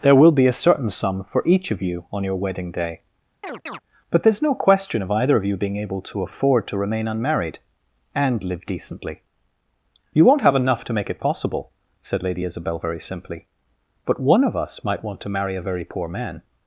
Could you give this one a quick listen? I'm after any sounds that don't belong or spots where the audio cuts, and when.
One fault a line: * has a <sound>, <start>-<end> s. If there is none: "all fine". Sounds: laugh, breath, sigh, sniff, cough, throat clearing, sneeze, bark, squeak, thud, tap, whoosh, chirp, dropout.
* has a chirp, 3.4-3.8 s